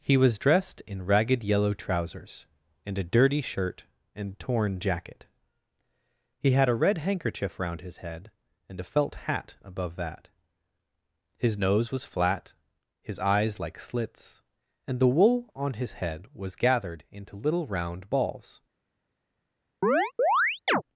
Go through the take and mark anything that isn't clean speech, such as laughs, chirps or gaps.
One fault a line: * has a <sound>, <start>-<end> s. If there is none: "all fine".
* has a chirp, 19.8-20.8 s